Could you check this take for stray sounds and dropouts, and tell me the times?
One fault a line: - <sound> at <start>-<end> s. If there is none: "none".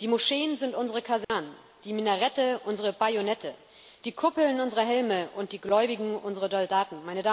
- dropout at 1.2-1.3 s